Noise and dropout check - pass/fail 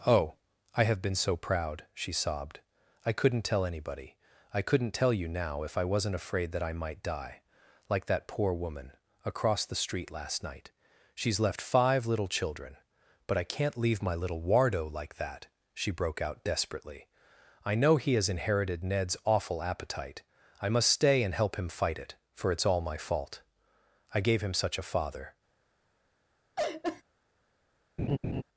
fail